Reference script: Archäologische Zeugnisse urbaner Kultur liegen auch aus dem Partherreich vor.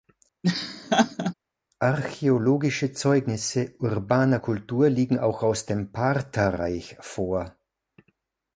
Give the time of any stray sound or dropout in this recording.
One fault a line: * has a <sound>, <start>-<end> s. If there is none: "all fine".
* has a laugh, 0.4-1.3 s